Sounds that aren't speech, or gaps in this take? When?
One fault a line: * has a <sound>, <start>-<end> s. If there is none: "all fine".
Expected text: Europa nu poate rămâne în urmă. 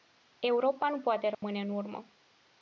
* has a dropout, 1.3-1.4 s